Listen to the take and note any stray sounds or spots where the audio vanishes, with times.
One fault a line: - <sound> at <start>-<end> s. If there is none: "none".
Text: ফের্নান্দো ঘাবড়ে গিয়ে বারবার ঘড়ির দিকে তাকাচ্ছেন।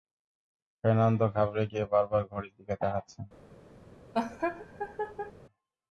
- laugh at 4.1-5.3 s